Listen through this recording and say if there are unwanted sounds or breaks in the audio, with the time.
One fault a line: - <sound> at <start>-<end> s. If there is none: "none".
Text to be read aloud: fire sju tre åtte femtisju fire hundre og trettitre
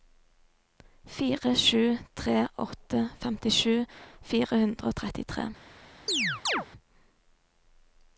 - chirp at 6.1-6.7 s